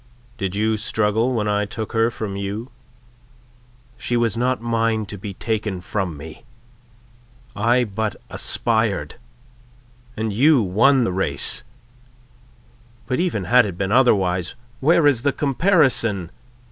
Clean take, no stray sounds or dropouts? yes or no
yes